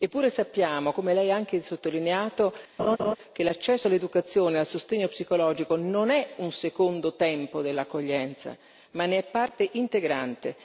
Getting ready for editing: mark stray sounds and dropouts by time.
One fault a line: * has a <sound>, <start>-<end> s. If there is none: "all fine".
* has a laugh, 2.8-3.2 s